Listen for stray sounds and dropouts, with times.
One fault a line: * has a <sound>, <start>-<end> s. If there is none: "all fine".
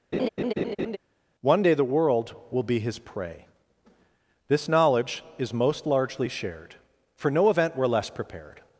* has a laugh, 0.1-1.0 s